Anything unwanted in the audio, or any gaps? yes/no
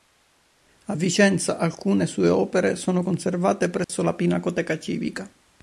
yes